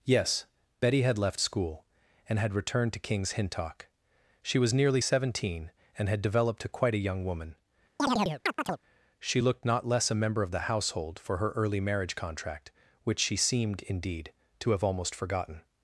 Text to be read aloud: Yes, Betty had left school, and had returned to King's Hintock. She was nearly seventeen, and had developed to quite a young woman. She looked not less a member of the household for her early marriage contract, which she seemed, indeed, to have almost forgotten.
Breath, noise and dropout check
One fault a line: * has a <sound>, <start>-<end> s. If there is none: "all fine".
* has a chirp, 8.0-8.8 s